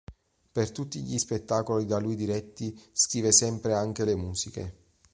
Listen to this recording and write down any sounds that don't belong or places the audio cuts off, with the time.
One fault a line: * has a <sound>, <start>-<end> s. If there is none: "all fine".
all fine